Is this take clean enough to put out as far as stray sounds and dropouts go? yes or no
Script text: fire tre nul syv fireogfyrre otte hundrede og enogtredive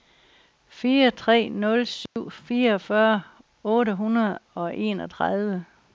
no